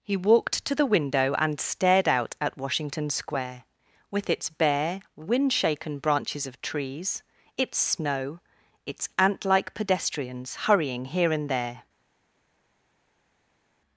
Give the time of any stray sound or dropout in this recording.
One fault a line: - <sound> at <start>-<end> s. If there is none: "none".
none